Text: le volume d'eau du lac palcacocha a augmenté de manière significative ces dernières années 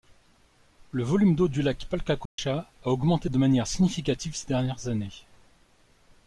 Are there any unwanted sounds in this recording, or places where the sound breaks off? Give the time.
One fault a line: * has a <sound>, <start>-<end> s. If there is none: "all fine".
* has a dropout, 2.3-2.4 s